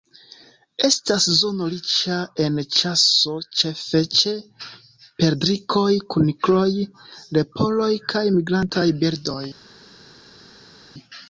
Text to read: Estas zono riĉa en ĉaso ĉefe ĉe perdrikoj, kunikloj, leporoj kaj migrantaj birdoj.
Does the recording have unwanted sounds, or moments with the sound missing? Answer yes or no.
no